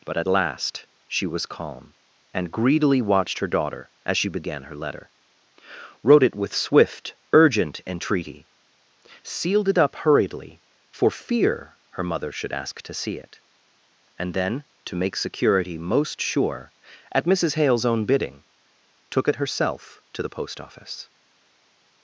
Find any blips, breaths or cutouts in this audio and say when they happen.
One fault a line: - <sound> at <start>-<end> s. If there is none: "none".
none